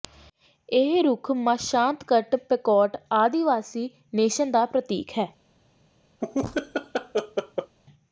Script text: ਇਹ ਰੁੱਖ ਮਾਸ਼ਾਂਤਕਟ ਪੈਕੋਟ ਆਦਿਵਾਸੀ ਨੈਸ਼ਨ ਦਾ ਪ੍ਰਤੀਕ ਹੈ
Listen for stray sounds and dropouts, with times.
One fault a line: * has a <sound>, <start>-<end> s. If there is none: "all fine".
* has a laugh, 6.2-7.8 s